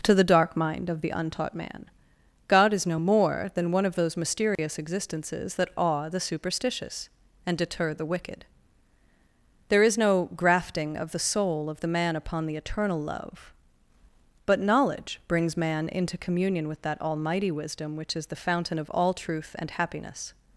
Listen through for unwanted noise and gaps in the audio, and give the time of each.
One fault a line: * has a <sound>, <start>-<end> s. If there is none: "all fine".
* has a dropout, 4.6-4.6 s